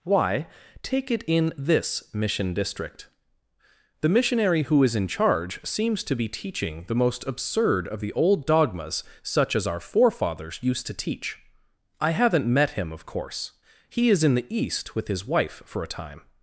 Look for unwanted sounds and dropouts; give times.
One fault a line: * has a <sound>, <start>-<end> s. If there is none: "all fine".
all fine